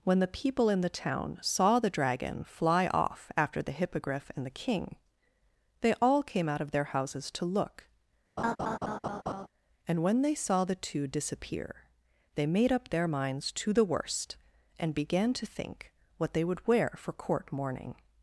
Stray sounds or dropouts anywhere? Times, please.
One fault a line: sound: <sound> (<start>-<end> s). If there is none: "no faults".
sound: laugh (8.4-9.5 s)